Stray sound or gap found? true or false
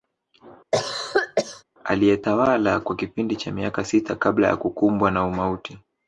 true